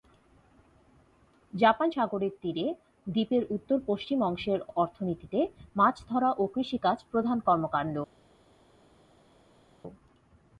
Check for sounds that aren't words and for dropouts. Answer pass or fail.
pass